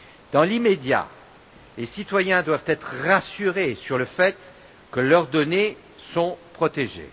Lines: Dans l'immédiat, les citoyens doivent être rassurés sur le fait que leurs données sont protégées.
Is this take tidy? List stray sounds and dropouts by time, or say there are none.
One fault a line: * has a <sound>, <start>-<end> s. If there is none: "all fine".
all fine